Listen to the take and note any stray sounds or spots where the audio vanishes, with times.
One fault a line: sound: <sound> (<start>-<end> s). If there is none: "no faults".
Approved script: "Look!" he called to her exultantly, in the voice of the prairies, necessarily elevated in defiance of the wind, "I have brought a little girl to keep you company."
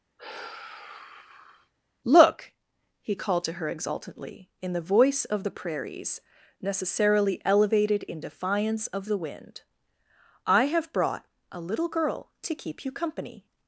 sound: sigh (0.2-1.7 s)